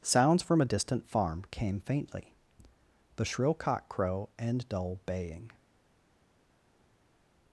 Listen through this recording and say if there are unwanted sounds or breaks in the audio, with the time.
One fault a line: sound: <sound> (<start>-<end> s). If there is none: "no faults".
no faults